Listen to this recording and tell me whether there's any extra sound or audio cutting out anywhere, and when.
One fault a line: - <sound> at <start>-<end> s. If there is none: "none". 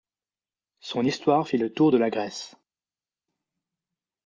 none